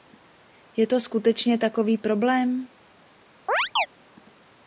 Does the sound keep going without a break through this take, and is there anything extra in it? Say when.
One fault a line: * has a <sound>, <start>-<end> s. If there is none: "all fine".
* has a chirp, 3.5-3.9 s